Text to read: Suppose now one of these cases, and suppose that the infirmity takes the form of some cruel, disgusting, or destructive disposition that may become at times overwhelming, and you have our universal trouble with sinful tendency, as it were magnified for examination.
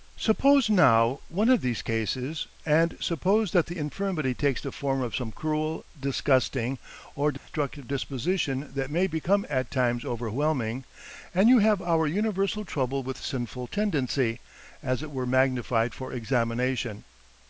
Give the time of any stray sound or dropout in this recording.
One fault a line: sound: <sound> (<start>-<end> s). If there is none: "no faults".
sound: dropout (7.4-7.5 s)